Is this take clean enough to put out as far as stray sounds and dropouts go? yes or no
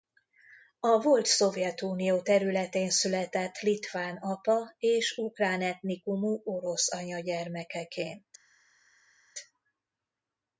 yes